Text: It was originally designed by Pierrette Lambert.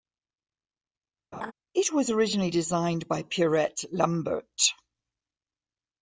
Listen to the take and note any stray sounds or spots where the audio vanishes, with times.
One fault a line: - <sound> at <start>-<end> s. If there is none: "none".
- laugh at 1.3-1.5 s